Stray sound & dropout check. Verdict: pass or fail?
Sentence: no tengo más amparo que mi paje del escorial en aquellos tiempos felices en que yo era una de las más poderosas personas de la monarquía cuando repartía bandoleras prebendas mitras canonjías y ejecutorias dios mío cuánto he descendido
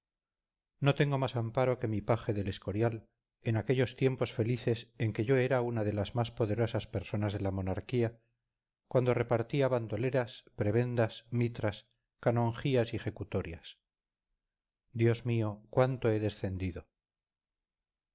pass